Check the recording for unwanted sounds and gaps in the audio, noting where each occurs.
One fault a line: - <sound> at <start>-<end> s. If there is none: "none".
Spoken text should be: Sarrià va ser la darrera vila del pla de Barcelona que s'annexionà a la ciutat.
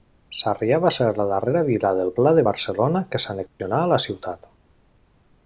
- dropout at 3.5-3.6 s